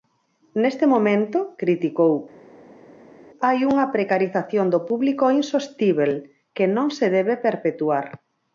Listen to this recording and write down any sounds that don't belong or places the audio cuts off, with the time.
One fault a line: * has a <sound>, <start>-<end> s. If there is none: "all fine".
all fine